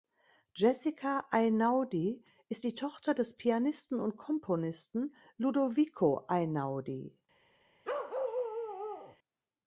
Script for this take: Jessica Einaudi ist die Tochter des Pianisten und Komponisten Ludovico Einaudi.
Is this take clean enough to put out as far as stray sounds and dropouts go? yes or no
no